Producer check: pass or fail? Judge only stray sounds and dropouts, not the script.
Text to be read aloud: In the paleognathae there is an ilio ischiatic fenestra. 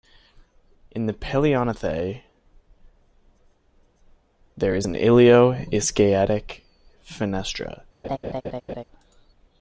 fail